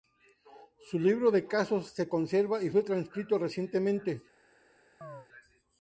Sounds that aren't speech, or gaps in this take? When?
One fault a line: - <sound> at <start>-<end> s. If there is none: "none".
- chirp at 5.0-5.3 s